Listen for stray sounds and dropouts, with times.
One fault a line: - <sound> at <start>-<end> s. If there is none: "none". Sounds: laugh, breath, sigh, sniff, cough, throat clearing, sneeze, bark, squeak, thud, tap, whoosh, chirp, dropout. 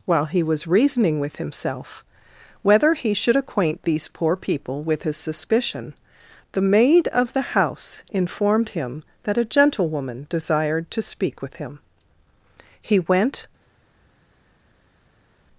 none